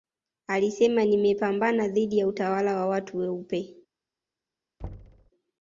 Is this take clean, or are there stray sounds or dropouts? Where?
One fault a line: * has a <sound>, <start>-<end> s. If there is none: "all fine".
* has a thud, 4.8-5.3 s